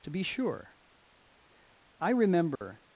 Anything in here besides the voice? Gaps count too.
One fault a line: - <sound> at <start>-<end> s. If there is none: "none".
- dropout at 2.6-2.6 s